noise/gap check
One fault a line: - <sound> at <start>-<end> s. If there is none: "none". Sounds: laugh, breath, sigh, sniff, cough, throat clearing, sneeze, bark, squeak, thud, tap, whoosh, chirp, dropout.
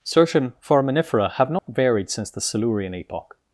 - dropout at 1.6-1.7 s